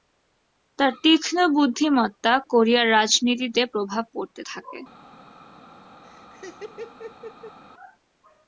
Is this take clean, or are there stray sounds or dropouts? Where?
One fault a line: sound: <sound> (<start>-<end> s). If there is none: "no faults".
sound: laugh (6.0-7.6 s)